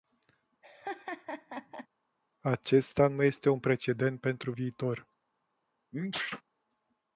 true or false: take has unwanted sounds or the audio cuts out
true